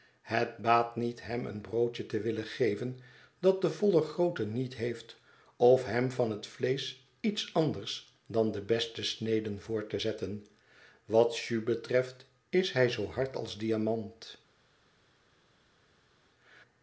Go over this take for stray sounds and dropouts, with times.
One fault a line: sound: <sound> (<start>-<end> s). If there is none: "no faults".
no faults